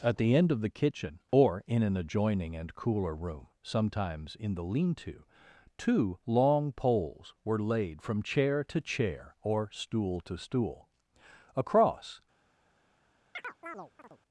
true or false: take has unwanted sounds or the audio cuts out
true